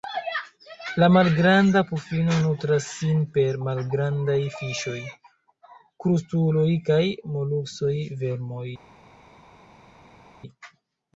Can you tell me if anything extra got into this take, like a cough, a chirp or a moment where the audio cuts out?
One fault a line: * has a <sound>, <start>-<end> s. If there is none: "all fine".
all fine